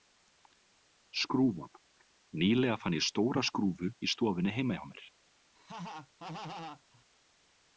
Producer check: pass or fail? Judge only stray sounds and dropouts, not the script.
fail